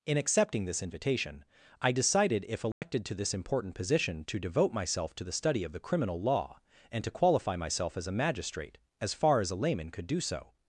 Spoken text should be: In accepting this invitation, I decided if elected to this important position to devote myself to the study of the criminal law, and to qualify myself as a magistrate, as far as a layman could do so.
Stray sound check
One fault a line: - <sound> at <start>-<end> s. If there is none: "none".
- dropout at 2.7-2.8 s